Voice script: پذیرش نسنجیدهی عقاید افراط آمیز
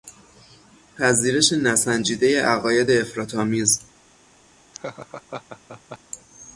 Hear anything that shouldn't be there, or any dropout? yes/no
yes